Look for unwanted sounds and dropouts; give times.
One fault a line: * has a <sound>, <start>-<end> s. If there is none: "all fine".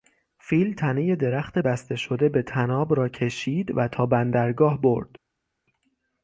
all fine